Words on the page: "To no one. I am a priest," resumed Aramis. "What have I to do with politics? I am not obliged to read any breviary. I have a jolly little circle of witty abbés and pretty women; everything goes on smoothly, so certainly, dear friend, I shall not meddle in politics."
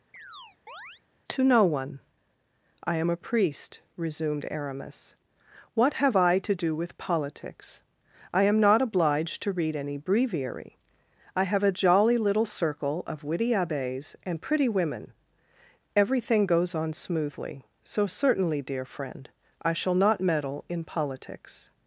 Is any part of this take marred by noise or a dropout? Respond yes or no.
yes